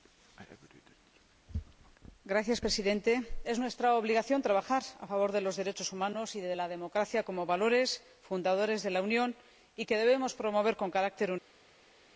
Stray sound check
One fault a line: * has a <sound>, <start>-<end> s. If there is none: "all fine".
all fine